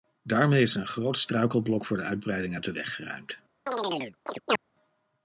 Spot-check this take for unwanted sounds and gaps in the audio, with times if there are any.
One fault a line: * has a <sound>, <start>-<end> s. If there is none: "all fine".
* has a chirp, 3.7-4.6 s